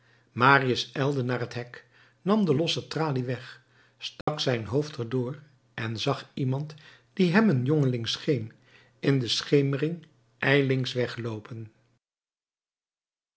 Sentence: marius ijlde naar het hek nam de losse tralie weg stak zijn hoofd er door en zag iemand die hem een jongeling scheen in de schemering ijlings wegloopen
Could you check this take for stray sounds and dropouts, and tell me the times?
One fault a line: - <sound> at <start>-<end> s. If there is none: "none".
- dropout at 4.2-4.3 s